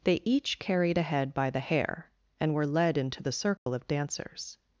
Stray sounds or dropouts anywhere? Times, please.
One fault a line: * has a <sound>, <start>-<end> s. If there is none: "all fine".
* has a dropout, 3.6-3.7 s